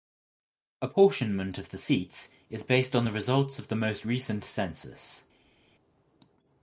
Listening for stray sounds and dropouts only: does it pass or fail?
pass